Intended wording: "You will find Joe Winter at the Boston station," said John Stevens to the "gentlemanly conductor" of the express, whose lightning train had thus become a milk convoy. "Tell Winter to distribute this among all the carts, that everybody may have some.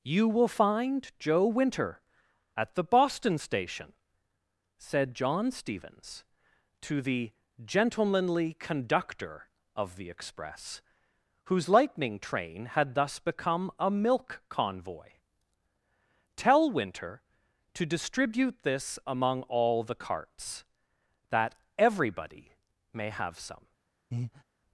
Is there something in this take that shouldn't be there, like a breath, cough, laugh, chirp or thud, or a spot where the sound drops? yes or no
yes